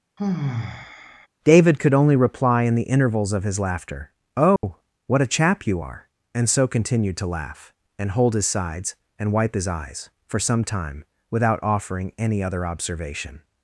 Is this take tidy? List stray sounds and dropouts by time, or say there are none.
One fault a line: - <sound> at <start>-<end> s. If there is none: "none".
- sigh at 0.2-1.3 s
- dropout at 4.6-4.6 s